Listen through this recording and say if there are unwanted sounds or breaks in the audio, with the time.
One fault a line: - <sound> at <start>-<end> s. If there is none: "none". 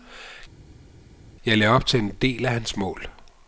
none